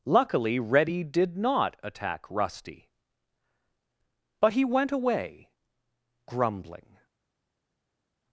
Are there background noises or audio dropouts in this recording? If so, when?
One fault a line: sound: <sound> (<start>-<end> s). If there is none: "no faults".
no faults